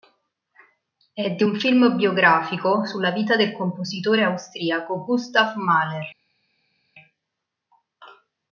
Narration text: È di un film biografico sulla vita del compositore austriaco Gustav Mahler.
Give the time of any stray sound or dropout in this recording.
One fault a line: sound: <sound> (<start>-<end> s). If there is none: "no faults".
no faults